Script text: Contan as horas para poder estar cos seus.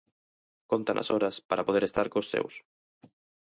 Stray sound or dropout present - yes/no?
no